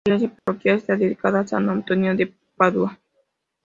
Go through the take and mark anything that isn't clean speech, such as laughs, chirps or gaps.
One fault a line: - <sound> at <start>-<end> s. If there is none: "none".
- dropout at 0.4-0.5 s